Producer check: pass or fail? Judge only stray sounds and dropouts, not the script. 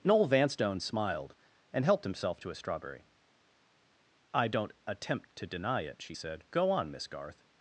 pass